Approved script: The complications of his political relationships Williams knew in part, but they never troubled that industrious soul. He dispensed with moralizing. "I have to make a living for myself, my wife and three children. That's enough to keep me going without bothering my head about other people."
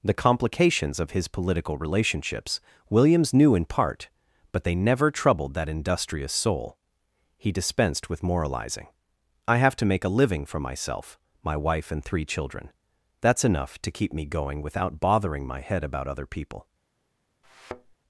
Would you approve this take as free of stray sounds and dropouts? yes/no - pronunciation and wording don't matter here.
no